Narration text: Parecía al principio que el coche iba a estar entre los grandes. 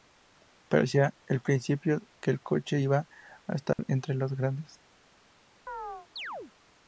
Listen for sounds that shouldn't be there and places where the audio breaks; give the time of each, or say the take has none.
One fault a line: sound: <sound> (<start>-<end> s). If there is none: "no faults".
sound: dropout (3.7-3.8 s)
sound: chirp (5.7-6.5 s)